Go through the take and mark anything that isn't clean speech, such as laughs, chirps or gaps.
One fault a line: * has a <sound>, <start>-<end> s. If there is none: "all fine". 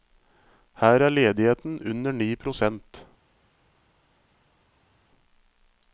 all fine